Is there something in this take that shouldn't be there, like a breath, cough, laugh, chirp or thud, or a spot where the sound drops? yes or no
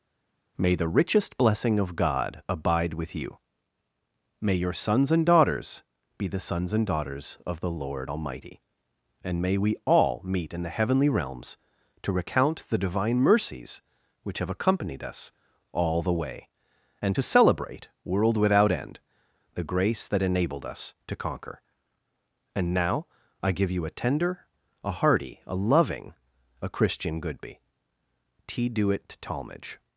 no